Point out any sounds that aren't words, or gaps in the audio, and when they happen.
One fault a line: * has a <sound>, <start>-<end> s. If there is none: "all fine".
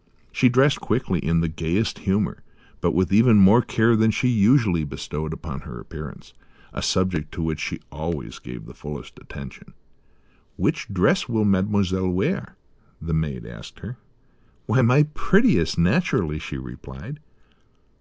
all fine